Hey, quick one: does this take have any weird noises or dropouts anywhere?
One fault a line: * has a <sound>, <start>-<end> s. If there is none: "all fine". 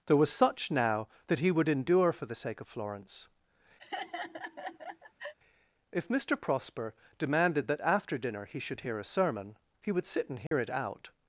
* has a laugh, 3.8-5.3 s
* has a dropout, 10.5-10.5 s